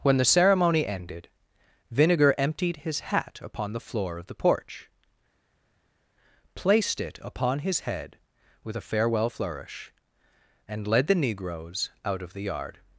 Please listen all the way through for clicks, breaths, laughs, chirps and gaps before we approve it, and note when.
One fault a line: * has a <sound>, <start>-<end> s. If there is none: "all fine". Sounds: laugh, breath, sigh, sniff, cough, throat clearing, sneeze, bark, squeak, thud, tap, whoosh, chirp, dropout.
all fine